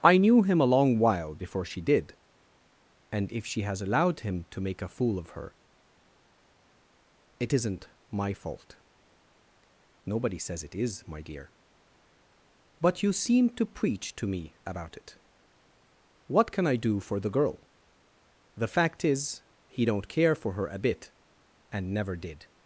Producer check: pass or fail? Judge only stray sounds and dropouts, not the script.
pass